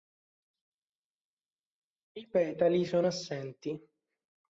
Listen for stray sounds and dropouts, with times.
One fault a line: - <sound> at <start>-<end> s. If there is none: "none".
none